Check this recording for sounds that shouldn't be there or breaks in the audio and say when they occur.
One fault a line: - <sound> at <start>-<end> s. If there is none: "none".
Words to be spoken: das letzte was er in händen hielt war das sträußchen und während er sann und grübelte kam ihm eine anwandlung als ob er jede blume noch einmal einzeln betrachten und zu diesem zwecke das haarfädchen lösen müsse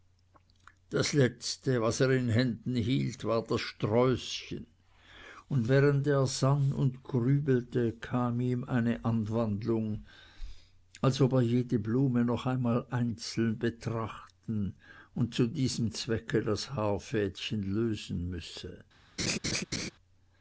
- laugh at 19.2-19.9 s